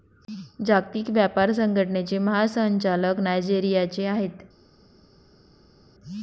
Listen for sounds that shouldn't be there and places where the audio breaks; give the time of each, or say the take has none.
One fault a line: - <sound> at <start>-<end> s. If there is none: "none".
none